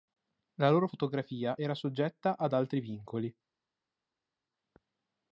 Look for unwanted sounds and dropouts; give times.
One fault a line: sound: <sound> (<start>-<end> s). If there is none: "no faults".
no faults